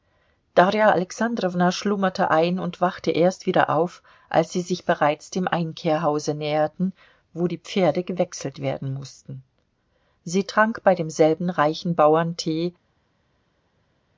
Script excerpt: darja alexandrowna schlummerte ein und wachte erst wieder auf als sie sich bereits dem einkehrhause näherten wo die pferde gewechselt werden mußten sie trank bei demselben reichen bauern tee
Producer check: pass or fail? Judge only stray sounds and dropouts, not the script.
pass